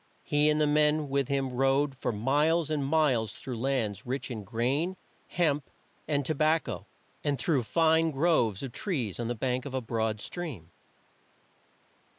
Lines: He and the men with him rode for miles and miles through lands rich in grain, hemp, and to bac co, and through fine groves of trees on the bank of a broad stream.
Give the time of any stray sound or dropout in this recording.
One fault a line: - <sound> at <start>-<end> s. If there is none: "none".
none